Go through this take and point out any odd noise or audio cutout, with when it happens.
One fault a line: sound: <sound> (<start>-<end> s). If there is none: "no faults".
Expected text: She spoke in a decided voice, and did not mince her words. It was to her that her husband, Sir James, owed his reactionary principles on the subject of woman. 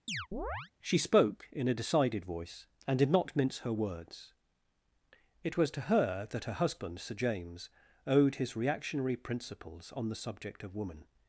sound: chirp (0.1-0.7 s)